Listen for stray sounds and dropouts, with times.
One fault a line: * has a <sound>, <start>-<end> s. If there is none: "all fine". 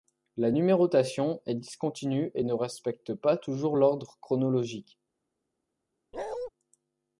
* has a bark, 6.1-6.5 s